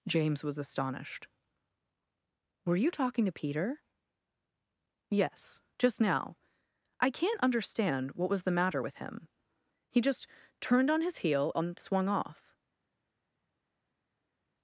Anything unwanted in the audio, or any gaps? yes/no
no